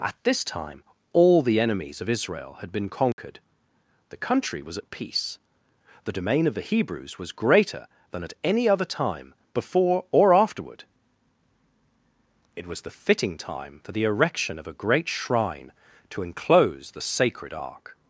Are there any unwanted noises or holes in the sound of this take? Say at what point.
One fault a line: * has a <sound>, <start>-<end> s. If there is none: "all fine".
* has a dropout, 3.1-3.2 s